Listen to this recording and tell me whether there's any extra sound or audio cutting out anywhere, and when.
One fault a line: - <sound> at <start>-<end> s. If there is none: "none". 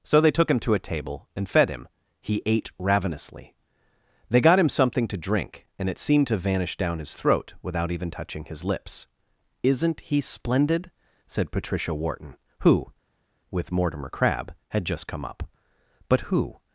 none